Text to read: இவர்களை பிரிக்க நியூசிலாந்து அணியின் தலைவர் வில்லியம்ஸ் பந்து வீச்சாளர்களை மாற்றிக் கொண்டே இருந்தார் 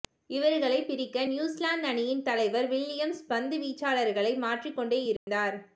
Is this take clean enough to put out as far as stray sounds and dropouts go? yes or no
no